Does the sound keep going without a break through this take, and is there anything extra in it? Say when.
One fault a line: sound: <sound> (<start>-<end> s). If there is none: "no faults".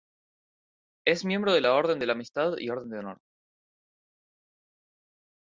no faults